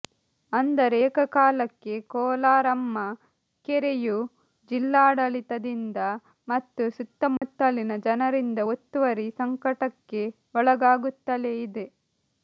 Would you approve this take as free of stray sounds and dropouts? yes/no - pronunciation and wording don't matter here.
no